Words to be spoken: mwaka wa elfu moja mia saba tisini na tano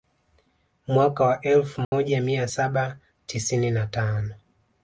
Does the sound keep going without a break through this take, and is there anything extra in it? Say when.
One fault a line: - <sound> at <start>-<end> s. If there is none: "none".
- dropout at 1.8-1.9 s